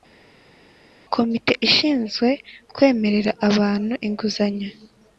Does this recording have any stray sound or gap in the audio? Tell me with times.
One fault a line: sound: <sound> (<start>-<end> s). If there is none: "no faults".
no faults